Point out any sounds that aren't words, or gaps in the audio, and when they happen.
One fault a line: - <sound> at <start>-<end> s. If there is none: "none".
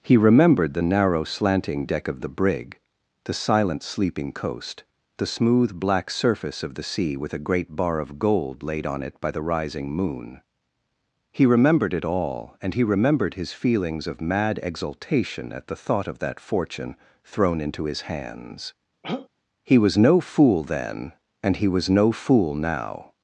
- throat clearing at 19.0-19.3 s